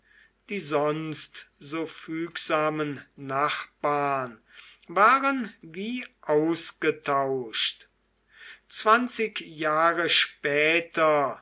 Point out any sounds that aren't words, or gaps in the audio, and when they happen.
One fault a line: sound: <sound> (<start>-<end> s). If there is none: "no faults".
no faults